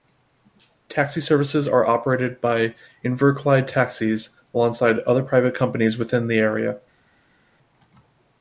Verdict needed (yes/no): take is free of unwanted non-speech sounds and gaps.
yes